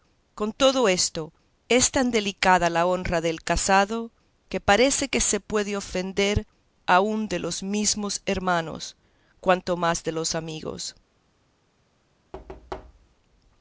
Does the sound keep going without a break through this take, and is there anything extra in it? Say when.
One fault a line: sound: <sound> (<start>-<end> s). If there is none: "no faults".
sound: thud (12.3-13.2 s)